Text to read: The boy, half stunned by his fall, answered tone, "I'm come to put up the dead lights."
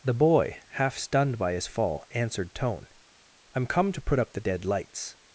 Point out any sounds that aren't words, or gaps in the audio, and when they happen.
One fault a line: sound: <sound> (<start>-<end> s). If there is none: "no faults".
no faults